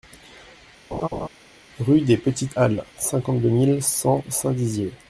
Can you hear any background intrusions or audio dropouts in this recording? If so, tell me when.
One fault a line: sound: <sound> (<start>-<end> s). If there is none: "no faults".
sound: laugh (0.9-1.3 s)